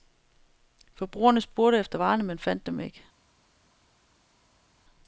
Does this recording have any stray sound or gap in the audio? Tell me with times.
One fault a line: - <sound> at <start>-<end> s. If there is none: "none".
none